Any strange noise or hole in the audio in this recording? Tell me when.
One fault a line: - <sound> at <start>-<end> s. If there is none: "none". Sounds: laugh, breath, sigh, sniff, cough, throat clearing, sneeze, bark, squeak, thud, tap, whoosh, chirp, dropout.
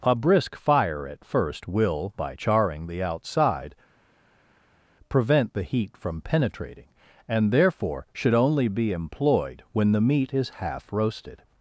none